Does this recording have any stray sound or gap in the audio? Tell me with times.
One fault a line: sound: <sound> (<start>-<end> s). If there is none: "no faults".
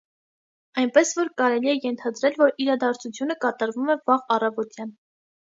no faults